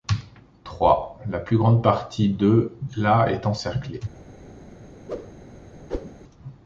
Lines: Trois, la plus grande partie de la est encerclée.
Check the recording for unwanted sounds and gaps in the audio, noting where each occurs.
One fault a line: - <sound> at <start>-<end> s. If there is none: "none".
- whoosh at 5.1-5.3 s
- whoosh at 5.9-6.1 s